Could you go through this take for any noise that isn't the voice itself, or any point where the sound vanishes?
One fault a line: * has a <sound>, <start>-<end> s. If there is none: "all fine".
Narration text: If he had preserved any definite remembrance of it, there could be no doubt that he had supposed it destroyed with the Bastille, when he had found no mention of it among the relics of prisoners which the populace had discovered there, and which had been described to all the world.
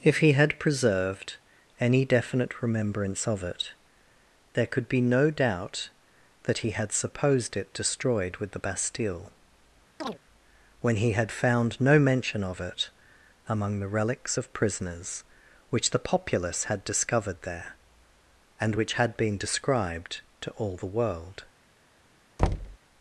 * has a chirp, 10.0-10.2 s
* has a thud, 22.4-22.8 s